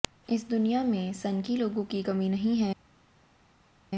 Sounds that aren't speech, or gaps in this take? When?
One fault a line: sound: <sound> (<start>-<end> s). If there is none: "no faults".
no faults